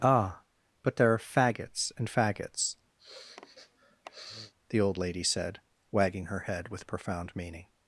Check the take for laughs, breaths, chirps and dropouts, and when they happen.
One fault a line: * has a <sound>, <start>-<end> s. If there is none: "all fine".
* has a sniff, 3.0-4.5 s